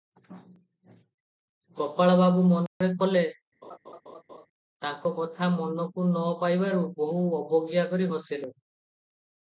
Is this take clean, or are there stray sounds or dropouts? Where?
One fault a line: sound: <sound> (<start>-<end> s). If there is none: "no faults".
sound: dropout (2.7-2.8 s)
sound: laugh (3.6-4.5 s)